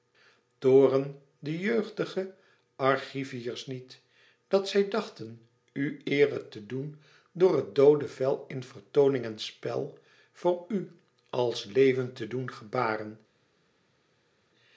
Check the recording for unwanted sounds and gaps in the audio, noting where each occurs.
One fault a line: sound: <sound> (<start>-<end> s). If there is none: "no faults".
no faults